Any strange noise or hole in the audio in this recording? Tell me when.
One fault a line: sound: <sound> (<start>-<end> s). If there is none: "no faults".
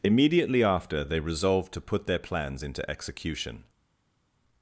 no faults